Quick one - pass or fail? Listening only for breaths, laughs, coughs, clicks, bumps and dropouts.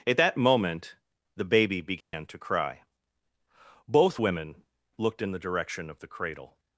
fail